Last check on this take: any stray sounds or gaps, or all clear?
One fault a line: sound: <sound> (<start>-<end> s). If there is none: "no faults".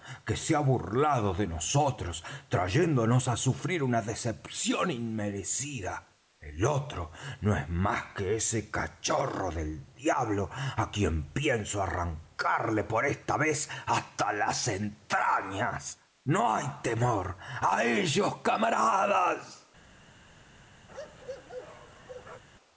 sound: bark (20.9-22.4 s)